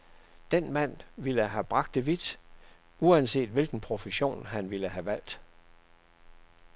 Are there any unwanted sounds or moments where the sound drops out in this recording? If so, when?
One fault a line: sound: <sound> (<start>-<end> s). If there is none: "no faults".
no faults